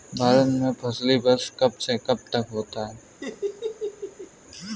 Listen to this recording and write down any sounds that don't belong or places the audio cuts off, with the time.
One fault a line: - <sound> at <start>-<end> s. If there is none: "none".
- laugh at 3.2-4.3 s